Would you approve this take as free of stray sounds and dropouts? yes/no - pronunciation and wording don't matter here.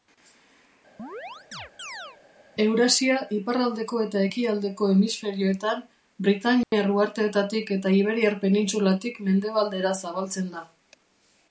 no